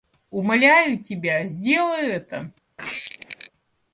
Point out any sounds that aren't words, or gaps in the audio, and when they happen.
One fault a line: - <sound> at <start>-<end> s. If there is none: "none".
- squeak at 2.8-3.5 s